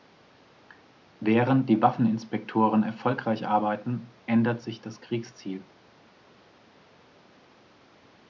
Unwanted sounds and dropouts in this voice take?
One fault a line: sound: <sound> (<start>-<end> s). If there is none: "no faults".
no faults